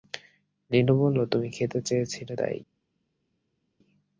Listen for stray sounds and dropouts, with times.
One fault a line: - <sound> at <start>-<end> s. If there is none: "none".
none